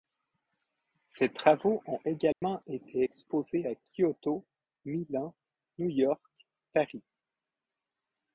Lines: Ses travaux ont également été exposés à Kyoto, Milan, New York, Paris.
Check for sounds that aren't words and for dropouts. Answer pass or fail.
fail